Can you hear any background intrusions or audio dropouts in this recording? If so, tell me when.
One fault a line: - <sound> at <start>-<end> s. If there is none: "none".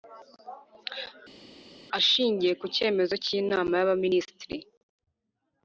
none